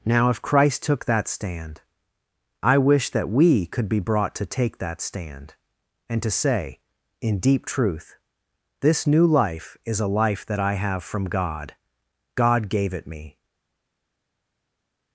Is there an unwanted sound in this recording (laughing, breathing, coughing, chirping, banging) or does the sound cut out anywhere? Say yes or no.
no